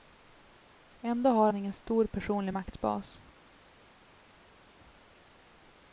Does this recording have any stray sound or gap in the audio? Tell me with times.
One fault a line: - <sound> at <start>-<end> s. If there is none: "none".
none